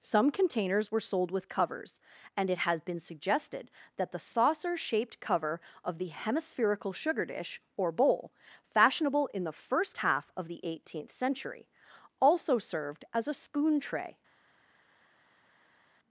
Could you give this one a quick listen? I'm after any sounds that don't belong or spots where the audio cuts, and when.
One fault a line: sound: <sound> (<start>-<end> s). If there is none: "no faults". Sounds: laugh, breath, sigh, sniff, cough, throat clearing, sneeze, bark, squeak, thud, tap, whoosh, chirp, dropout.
no faults